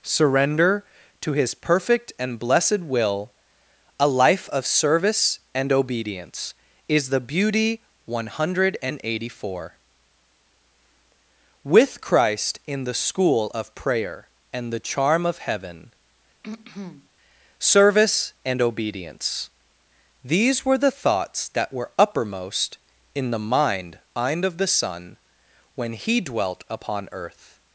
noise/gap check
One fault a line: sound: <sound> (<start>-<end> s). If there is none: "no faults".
sound: throat clearing (16.4-17.1 s)